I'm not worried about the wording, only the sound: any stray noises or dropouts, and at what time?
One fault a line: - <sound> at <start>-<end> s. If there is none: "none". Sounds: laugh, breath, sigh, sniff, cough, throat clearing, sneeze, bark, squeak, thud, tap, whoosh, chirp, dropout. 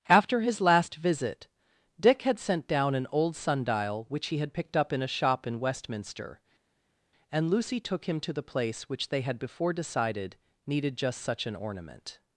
none